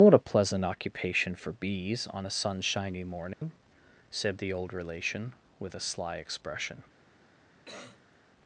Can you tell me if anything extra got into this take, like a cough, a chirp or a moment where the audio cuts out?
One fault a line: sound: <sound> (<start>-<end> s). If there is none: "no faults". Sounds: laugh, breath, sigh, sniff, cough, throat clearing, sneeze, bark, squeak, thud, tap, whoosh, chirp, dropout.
sound: dropout (3.3-3.4 s)
sound: cough (7.7-8.2 s)